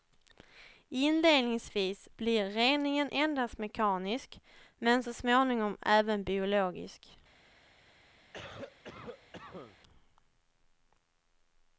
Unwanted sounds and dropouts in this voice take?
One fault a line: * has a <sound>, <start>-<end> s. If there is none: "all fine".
* has a cough, 8.3-9.8 s